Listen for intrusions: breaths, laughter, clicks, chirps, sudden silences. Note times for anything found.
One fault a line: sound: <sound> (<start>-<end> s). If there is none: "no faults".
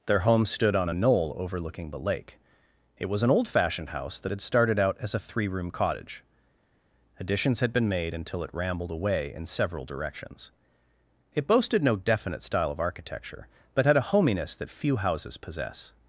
no faults